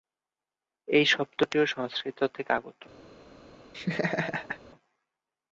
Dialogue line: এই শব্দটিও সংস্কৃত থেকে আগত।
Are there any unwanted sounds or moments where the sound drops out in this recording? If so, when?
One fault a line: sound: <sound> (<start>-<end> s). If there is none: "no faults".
sound: laugh (3.7-4.6 s)